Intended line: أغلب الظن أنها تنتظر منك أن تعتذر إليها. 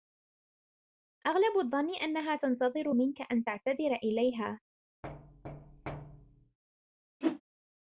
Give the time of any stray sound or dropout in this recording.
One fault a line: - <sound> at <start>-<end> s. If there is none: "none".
- thud at 5.0-6.6 s
- whoosh at 7.2-7.4 s